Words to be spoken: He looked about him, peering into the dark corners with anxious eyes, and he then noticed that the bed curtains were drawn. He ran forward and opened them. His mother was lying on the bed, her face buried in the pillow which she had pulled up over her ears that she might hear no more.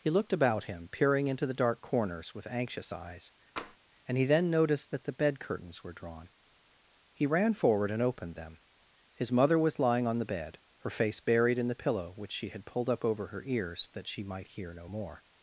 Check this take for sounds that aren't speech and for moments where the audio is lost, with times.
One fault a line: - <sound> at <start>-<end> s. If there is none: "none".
- tap at 3.6-3.8 s